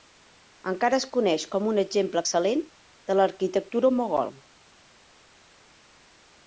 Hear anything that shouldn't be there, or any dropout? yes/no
no